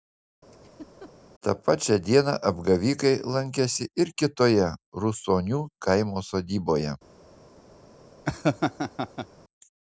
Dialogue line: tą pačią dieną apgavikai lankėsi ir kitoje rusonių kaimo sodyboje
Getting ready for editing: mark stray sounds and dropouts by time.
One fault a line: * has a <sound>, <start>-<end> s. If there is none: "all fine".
* has a laugh, 0.5-1.1 s
* has a laugh, 8.3-9.3 s